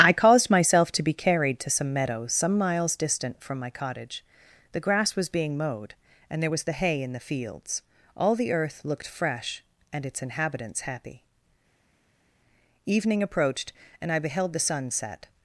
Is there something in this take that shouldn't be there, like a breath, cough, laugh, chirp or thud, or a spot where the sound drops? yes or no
no